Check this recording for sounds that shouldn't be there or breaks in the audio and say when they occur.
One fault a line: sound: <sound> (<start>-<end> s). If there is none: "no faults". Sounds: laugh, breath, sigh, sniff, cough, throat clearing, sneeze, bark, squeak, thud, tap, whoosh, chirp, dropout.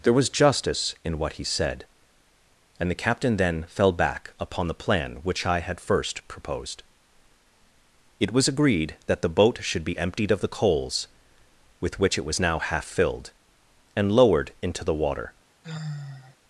sound: sigh (15.6-16.4 s)